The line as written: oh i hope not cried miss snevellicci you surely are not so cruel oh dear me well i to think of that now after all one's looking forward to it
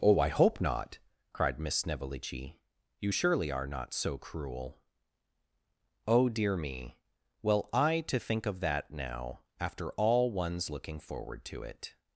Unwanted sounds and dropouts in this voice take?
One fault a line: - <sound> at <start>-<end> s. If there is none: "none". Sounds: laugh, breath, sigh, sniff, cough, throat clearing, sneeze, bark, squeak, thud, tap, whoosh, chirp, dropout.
none